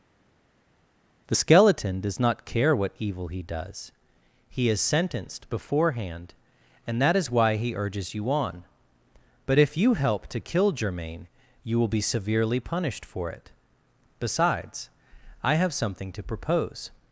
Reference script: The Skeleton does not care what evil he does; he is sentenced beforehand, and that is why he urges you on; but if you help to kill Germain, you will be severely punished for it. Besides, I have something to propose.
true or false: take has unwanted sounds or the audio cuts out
false